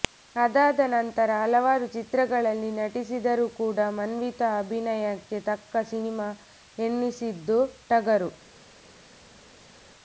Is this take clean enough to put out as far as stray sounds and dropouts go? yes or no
yes